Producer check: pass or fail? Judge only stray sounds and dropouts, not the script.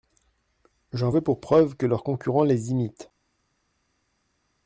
pass